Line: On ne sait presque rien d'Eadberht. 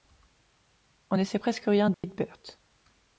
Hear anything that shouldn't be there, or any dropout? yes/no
yes